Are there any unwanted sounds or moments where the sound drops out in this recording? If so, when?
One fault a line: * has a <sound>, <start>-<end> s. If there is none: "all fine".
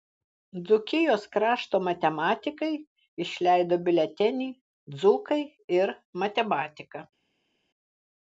all fine